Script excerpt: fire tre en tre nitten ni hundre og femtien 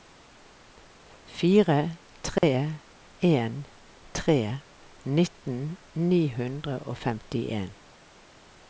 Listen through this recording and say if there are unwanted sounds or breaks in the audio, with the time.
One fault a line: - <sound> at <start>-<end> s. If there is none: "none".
- dropout at 2.4-2.4 s